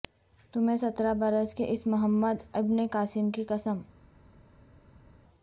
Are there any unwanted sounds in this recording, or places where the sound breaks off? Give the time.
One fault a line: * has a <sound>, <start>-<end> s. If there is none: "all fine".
all fine